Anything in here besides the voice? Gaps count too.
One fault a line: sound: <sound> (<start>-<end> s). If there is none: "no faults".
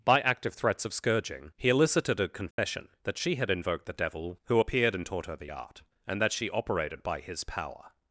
sound: dropout (2.5-2.6 s)